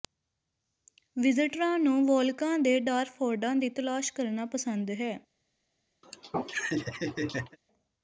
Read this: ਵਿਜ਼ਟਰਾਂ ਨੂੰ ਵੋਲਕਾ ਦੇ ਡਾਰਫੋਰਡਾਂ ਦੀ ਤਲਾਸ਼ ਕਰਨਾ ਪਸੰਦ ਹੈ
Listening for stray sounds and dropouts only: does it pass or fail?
fail